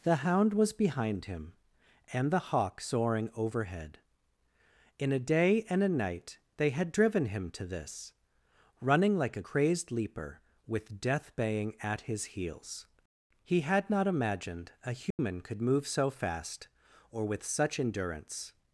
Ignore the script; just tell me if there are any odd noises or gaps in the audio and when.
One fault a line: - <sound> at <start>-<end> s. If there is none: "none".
- dropout at 15.1-15.2 s